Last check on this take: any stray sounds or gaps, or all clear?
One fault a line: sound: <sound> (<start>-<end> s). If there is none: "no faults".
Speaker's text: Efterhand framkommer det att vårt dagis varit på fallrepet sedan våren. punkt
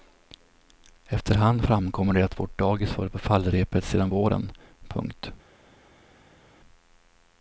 no faults